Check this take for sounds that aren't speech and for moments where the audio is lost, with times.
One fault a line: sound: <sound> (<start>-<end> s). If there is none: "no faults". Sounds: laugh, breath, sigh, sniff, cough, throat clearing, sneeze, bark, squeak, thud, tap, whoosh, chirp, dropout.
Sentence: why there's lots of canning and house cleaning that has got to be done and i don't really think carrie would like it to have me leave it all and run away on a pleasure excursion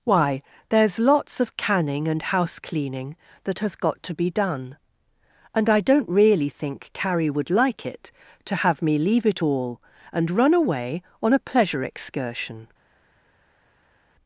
no faults